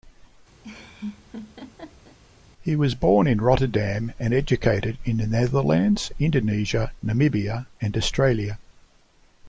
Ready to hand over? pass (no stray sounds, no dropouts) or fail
fail